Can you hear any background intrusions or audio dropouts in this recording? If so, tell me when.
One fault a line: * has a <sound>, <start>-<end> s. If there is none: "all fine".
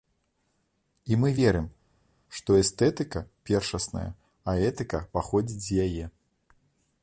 all fine